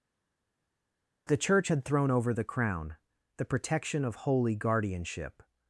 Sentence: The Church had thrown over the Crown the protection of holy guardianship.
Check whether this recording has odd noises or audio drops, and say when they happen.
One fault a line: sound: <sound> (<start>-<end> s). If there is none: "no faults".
no faults